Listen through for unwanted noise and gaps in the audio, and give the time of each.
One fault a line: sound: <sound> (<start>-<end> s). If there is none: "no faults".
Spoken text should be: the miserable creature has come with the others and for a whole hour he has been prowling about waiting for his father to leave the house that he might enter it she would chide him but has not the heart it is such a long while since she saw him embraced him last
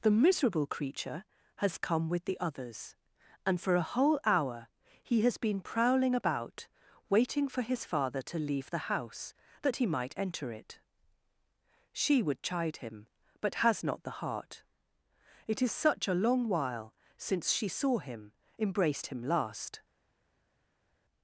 no faults